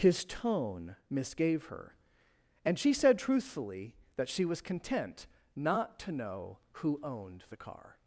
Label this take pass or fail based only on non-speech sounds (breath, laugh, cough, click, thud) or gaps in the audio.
pass